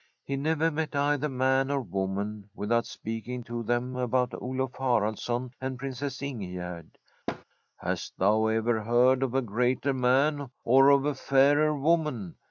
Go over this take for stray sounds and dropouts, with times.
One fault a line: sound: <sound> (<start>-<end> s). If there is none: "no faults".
sound: thud (7.3-7.4 s)